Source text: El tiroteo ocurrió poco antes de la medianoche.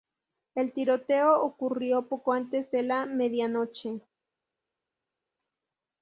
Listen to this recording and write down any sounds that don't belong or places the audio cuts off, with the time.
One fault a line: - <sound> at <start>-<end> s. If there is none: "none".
none